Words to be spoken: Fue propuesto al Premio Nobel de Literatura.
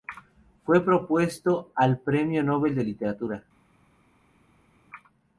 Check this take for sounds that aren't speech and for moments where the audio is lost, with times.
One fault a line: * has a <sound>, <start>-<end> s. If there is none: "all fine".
all fine